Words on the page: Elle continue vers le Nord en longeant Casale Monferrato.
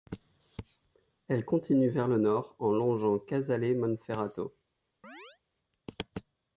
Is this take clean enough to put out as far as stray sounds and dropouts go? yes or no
no